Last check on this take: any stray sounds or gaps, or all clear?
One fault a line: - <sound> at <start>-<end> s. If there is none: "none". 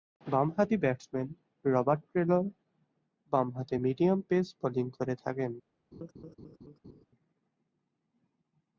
- laugh at 5.9-7.1 s